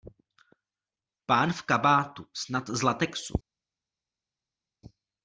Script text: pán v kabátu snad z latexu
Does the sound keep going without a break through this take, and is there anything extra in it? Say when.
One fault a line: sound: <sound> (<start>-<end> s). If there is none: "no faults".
no faults